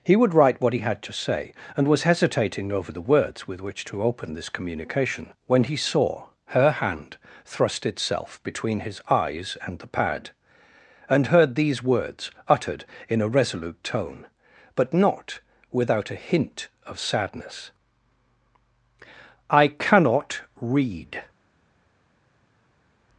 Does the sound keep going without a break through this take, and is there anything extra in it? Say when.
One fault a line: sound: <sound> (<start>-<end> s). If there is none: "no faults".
no faults